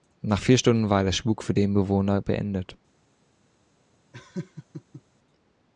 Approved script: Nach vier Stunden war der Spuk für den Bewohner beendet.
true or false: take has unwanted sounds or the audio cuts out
true